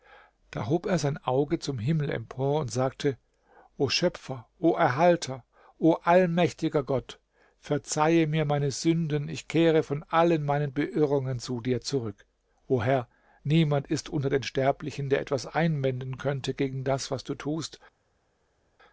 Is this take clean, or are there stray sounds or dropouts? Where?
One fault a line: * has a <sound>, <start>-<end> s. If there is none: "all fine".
all fine